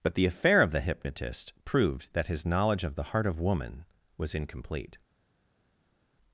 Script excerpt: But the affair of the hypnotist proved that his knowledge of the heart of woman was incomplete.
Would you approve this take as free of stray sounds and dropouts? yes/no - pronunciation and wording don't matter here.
yes